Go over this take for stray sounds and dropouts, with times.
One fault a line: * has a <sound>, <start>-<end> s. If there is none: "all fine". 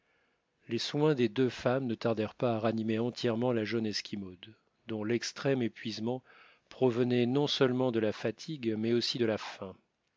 all fine